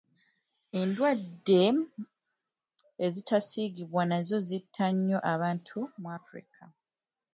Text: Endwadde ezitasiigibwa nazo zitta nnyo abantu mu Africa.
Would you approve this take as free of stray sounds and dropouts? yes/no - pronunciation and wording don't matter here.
yes